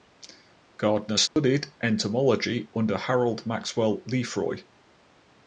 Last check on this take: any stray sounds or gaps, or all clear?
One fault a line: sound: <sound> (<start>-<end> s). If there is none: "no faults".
sound: dropout (1.3-1.4 s)